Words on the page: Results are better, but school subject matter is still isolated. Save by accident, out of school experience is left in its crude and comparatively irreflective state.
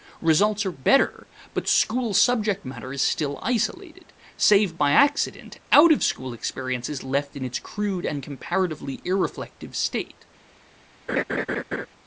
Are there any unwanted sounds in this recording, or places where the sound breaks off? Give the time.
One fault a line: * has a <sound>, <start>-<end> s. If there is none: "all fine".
* has a laugh, 11.1-11.9 s